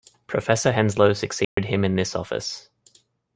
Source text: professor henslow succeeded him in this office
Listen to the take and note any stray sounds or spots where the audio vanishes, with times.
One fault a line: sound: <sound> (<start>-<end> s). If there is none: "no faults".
sound: dropout (1.4-1.6 s)